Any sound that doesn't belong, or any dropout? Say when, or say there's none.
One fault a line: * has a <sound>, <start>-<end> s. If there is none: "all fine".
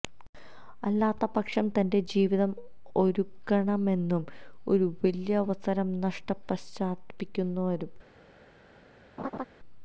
* has a laugh, 9.2-9.5 s